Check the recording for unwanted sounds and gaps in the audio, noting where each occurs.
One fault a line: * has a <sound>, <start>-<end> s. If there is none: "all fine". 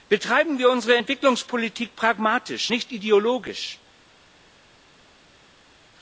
all fine